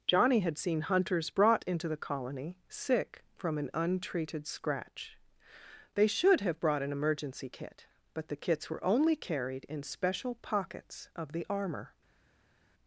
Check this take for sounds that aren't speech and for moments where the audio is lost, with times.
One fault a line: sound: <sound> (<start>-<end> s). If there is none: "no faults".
no faults